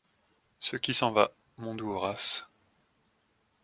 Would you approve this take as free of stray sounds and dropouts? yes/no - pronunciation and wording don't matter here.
yes